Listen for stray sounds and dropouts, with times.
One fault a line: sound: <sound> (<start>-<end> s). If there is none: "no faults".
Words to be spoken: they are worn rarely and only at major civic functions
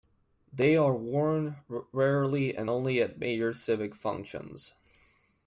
no faults